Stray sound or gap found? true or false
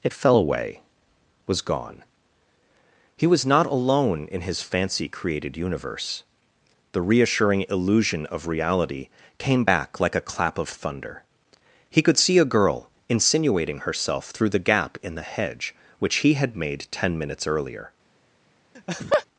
true